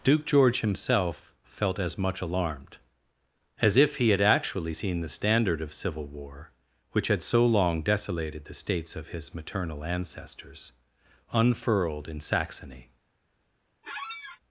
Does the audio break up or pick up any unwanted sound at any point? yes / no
yes